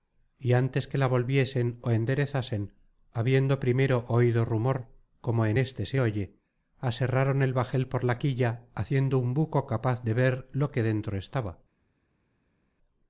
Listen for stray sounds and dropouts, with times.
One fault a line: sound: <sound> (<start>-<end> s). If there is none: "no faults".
no faults